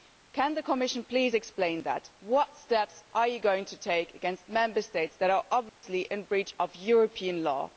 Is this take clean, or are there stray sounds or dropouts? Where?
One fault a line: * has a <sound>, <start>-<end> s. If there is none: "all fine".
* has a dropout, 5.7-5.8 s